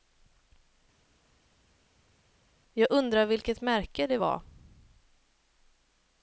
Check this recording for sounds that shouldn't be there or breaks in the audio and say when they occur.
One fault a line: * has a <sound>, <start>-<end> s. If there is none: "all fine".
all fine